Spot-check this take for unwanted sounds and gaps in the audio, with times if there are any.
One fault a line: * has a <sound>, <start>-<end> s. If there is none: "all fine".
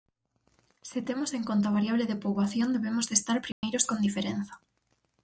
* has a dropout, 3.5-3.6 s